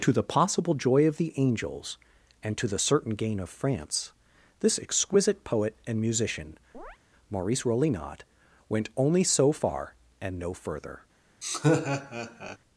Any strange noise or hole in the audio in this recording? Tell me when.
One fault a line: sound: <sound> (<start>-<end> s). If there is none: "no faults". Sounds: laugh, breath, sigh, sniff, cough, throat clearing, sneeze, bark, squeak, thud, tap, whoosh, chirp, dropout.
sound: chirp (6.7-7.0 s)
sound: laugh (11.4-12.6 s)